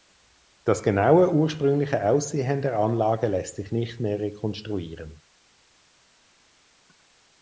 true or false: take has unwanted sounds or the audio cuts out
false